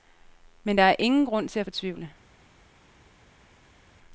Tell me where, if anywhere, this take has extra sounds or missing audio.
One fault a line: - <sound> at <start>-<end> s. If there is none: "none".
none